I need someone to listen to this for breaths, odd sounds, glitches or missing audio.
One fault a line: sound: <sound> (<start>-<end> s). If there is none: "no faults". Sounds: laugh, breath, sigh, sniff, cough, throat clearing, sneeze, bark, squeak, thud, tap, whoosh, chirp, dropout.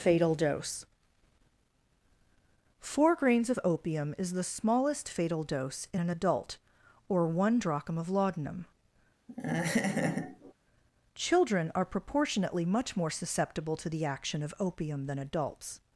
sound: laugh (9.3-10.5 s)